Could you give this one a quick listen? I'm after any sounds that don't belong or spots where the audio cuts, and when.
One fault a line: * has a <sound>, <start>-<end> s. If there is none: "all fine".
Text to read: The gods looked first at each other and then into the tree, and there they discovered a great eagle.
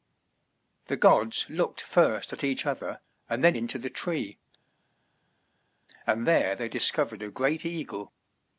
all fine